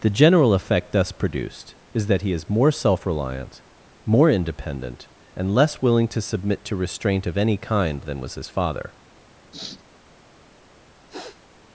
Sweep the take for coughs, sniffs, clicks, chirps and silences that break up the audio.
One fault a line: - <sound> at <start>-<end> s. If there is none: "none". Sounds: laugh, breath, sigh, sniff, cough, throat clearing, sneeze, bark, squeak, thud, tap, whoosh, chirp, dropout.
- sniff at 9.5-9.8 s
- sniff at 11.1-11.4 s